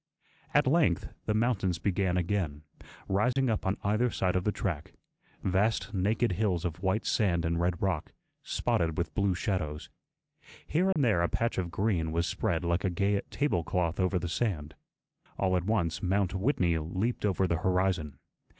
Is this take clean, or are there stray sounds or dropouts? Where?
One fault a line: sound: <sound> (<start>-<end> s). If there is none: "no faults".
sound: dropout (3.3-3.4 s)
sound: dropout (10.9-11.0 s)